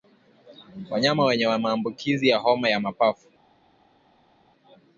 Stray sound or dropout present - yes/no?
no